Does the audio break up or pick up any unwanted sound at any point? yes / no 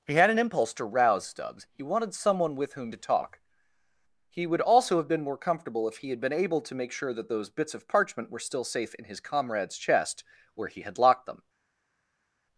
no